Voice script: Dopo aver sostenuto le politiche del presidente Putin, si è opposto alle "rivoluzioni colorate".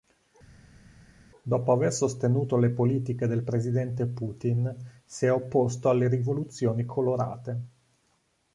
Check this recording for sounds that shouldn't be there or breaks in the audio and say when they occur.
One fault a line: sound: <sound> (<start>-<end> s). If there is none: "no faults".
no faults